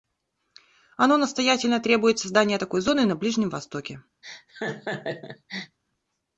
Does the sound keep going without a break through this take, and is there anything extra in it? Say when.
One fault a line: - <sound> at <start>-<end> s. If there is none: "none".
- laugh at 4.2-5.8 s